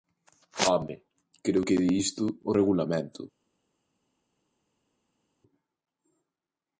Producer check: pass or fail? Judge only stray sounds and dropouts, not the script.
pass